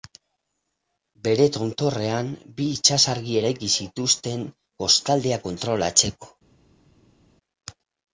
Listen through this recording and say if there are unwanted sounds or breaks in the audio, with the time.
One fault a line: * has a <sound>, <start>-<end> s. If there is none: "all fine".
all fine